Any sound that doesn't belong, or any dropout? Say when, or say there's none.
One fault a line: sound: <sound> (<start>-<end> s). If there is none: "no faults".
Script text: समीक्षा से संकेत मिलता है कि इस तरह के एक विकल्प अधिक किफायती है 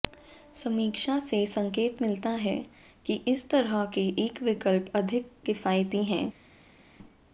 no faults